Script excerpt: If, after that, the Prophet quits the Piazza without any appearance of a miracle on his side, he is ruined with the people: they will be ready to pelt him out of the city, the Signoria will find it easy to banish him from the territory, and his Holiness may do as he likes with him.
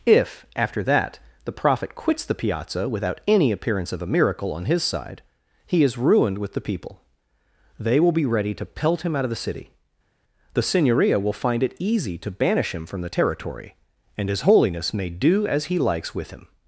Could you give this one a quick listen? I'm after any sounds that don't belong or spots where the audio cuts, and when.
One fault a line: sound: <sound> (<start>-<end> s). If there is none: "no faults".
no faults